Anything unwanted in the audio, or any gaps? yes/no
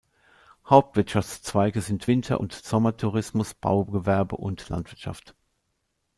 no